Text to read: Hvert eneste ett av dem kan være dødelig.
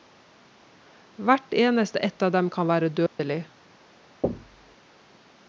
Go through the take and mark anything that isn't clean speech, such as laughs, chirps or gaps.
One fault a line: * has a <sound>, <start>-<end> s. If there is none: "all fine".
* has a dropout, 3.1-3.2 s
* has a thud, 4.2-4.8 s